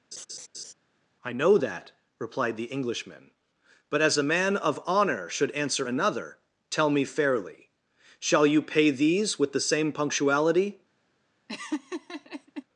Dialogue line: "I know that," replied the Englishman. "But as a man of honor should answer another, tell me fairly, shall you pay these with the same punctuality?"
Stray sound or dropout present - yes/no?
yes